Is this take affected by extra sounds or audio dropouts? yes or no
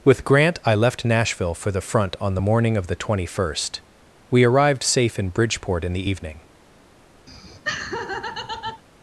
yes